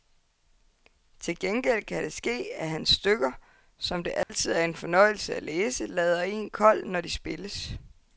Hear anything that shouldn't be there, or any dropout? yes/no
yes